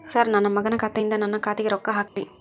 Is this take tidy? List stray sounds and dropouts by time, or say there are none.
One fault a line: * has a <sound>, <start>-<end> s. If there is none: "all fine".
* has a dropout, 2.1-2.2 s